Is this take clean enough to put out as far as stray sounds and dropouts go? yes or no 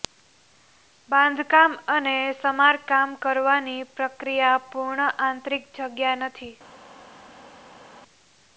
yes